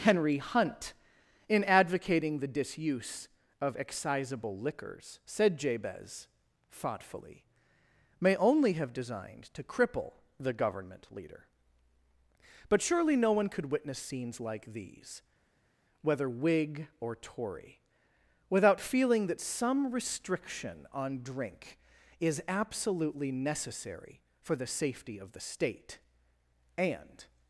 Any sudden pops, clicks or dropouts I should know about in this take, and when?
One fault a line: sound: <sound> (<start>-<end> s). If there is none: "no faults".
no faults